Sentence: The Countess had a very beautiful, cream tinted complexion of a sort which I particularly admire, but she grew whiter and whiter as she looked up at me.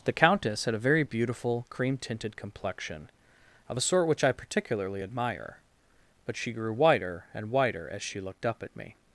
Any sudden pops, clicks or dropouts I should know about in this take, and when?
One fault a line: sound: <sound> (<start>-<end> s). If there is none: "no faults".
no faults